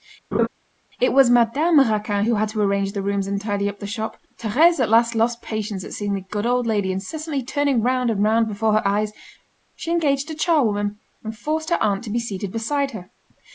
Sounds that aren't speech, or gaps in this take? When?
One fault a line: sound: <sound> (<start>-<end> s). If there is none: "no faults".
sound: laugh (0.3-0.5 s)